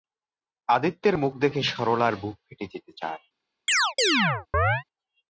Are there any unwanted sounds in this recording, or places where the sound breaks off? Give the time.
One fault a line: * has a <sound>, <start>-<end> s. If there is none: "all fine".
* has a chirp, 3.7-4.8 s